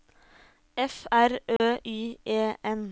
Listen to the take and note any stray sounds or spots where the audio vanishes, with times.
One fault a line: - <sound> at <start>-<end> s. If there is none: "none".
- dropout at 1.6-1.6 s